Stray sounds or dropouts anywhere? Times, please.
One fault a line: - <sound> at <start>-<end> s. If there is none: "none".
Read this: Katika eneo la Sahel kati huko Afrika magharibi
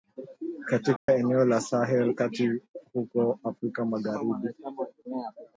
- dropout at 1.0-1.1 s